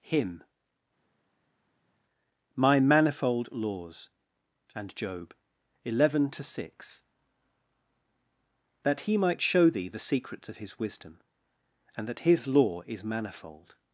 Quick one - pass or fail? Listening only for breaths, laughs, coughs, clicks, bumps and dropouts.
pass